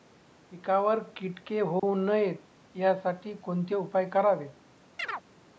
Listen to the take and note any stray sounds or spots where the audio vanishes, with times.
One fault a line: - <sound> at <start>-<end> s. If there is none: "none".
- dropout at 1.8-1.8 s
- chirp at 5.0-5.2 s